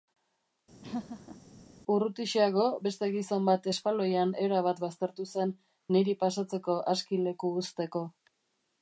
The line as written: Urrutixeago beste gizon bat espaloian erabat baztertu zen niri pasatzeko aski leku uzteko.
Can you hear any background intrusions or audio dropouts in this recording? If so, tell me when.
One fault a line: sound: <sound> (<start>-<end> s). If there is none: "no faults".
sound: laugh (0.8-1.4 s)